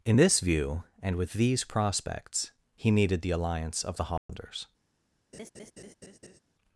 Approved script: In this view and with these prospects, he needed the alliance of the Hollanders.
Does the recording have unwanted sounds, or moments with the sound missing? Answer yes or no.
yes